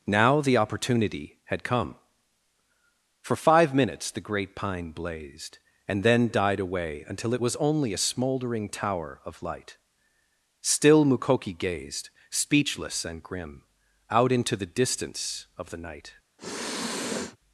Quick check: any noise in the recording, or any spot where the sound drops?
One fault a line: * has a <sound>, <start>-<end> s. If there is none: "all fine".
* has a sniff, 16.4-17.4 s